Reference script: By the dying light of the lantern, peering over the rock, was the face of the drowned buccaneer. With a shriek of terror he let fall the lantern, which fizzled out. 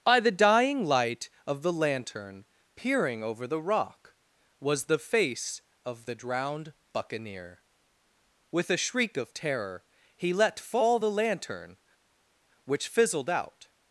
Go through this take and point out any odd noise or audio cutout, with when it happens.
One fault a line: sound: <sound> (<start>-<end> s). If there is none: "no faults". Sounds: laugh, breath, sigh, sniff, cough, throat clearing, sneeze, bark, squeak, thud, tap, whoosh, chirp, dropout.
no faults